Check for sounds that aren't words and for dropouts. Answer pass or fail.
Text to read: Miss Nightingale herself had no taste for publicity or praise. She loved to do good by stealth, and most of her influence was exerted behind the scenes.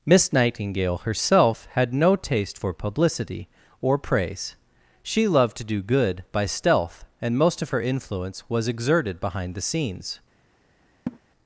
fail